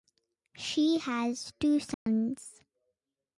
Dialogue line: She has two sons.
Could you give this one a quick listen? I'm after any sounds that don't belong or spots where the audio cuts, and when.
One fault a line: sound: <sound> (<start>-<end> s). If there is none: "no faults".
sound: dropout (1.9-2.1 s)